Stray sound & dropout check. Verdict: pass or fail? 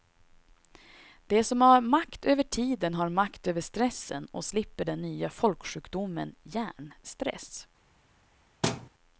fail